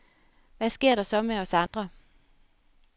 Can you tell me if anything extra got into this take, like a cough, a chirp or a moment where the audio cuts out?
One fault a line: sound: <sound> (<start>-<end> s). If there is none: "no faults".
sound: dropout (1.7-1.7 s)